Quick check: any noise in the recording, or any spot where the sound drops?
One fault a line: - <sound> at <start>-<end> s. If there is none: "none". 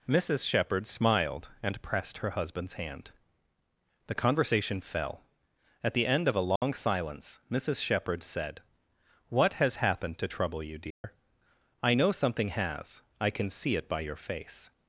- dropout at 6.6-6.6 s
- dropout at 10.9-11.0 s